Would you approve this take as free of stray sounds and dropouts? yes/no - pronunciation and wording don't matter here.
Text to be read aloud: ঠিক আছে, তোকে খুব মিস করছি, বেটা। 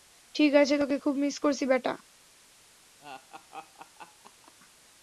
no